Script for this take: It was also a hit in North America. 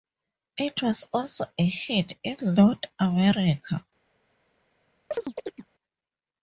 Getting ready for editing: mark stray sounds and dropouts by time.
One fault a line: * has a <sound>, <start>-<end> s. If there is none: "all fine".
* has a chirp, 5.1-5.7 s